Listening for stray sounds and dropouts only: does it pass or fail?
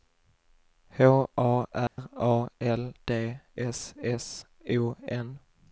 fail